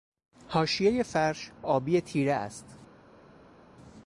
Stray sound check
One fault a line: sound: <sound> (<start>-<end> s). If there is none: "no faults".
no faults